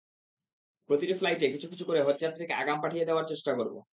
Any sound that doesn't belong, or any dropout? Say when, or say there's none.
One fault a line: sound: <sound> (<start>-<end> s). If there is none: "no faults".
no faults